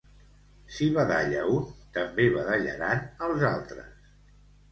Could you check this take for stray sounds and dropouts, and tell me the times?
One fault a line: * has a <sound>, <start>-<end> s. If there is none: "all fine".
all fine